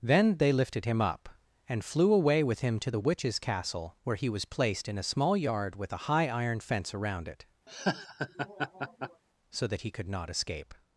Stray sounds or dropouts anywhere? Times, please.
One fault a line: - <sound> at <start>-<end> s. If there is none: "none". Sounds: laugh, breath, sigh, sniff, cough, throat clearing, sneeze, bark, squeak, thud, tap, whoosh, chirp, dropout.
- laugh at 7.7-9.2 s